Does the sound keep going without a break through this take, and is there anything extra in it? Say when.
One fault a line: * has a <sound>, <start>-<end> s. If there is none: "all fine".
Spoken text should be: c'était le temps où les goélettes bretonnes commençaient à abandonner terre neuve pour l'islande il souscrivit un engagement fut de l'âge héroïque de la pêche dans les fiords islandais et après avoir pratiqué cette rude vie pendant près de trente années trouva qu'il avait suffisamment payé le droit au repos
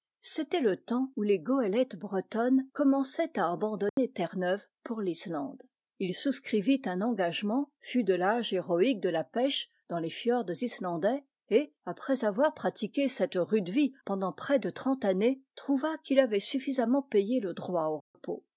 * has a dropout, 3.9-4.0 s
* has a dropout, 18.0-18.1 s